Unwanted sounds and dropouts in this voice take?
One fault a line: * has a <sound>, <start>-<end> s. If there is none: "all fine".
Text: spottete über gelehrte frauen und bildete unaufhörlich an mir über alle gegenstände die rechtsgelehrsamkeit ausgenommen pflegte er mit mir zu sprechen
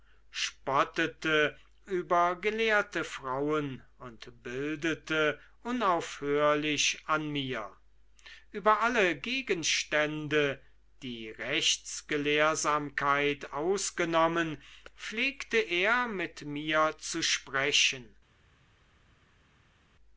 all fine